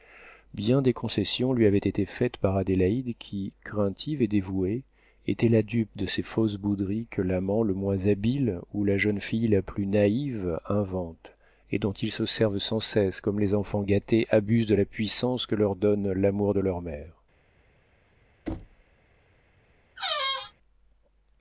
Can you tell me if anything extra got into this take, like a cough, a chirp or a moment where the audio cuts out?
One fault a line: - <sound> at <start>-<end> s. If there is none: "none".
- thud at 18.5-18.8 s
- squeak at 20.0-20.5 s